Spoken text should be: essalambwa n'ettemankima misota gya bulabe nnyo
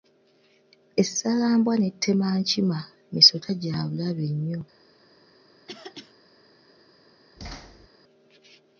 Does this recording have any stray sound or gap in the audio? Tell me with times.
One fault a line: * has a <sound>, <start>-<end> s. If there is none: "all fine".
* has a throat clearing, 5.7-6.1 s
* has a thud, 7.4-7.9 s